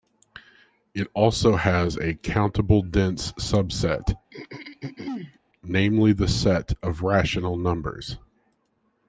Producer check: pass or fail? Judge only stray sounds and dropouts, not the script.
fail